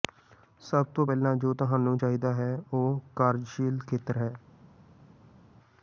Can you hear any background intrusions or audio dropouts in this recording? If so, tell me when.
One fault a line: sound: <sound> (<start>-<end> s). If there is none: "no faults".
no faults